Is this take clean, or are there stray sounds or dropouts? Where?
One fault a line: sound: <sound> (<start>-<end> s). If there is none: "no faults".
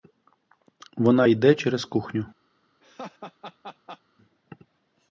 sound: laugh (2.8-4.0 s)